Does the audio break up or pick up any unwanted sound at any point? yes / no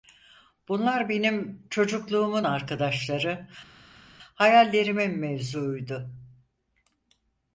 no